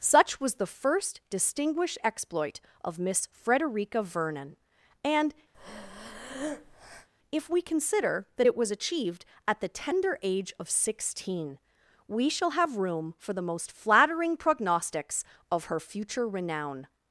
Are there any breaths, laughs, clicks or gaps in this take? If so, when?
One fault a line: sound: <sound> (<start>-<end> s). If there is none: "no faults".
sound: breath (5.5-7.1 s)